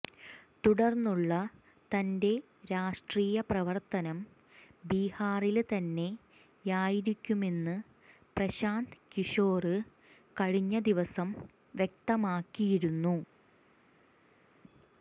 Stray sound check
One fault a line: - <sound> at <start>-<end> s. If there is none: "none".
none